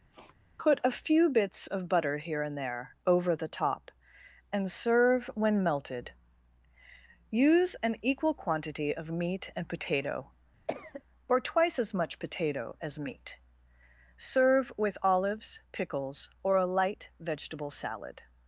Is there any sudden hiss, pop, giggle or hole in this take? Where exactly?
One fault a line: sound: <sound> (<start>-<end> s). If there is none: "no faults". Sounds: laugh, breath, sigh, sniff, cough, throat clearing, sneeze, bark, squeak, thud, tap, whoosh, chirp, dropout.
sound: sniff (0.1-0.4 s)
sound: cough (10.7-11.0 s)